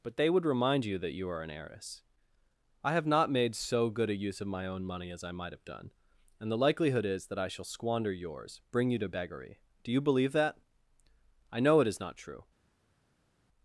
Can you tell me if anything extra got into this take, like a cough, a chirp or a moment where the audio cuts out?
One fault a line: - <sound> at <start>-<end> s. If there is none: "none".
none